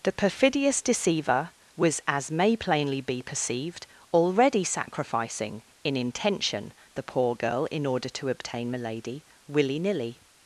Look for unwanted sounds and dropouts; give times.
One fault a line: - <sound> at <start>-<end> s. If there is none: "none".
none